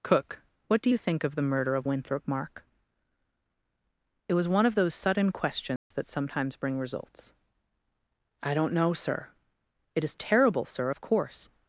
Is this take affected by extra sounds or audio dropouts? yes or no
yes